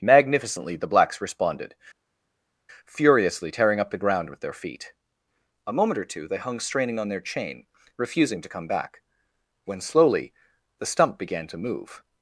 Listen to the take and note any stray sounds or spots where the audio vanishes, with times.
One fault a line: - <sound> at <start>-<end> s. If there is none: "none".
none